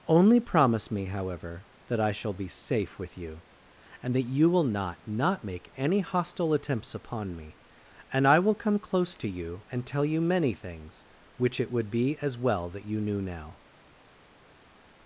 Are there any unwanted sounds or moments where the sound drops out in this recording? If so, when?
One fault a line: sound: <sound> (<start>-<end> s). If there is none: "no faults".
no faults